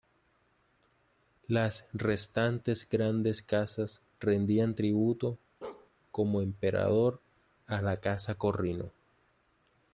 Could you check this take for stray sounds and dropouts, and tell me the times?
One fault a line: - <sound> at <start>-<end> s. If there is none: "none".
- bark at 5.6-5.9 s